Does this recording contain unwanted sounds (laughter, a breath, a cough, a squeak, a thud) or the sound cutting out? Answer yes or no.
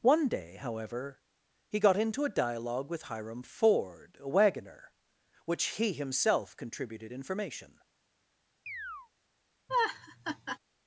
yes